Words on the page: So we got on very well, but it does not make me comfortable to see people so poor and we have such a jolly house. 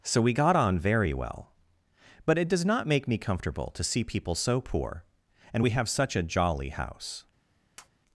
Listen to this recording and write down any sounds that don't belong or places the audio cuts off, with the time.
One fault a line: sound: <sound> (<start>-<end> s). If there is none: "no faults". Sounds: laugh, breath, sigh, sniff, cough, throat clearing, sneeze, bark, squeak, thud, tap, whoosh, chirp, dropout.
sound: tap (7.8-7.9 s)